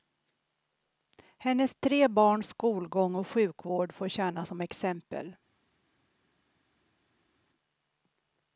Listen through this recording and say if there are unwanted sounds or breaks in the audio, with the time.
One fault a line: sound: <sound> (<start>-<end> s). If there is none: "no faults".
no faults